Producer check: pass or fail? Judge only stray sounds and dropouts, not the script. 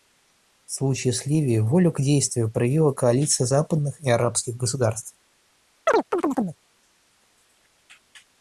fail